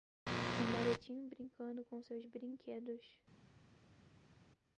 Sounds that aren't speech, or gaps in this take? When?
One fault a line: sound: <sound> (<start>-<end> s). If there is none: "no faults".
no faults